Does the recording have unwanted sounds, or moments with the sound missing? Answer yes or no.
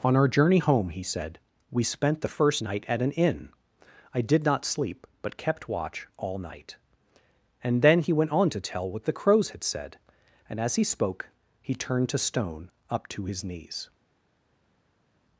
no